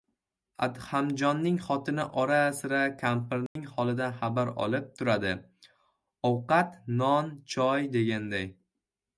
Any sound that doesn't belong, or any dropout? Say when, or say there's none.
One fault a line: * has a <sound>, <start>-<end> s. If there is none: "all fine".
* has a dropout, 3.5-3.6 s